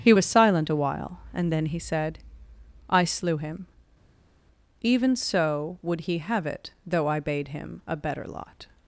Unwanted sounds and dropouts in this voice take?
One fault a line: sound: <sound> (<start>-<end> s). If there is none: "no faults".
no faults